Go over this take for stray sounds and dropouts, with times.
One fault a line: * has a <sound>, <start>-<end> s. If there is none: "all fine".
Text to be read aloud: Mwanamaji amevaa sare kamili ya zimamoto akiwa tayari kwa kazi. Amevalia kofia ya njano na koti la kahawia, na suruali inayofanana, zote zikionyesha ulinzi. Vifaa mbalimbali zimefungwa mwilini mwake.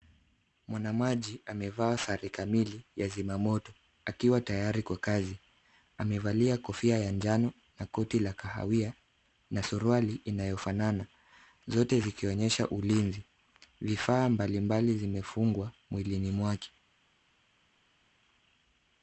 all fine